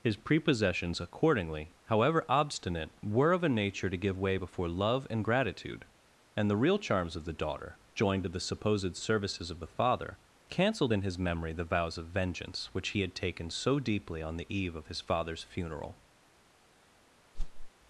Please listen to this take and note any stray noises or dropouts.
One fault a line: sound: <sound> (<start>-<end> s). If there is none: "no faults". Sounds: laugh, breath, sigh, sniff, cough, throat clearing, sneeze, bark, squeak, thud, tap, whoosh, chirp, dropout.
sound: whoosh (17.3-17.7 s)